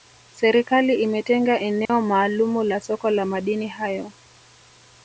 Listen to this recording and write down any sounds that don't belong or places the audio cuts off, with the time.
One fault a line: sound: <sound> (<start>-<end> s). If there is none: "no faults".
sound: dropout (1.9-1.9 s)